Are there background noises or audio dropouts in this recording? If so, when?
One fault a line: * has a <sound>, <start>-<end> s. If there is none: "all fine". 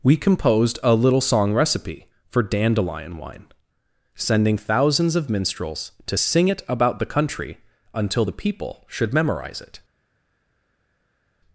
all fine